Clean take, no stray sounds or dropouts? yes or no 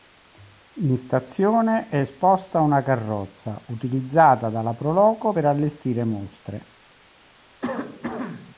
no